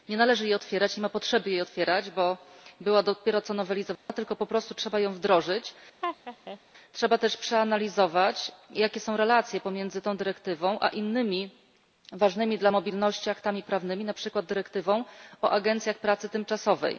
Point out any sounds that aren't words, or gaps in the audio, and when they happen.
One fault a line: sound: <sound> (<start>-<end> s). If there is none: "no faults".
sound: dropout (4.0-4.1 s)
sound: laugh (6.0-6.6 s)